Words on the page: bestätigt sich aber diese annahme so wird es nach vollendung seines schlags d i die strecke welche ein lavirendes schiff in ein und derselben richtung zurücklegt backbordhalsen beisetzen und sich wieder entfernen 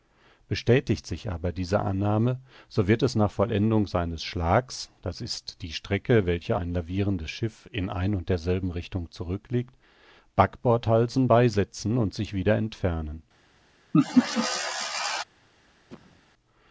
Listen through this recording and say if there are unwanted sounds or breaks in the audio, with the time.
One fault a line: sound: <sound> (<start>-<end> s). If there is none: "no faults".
sound: laugh (13.9-15.2 s)
sound: cough (15.9-16.2 s)